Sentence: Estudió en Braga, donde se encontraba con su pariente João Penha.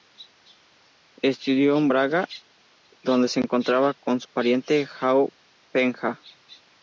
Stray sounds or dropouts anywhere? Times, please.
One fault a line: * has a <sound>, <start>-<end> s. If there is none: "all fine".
all fine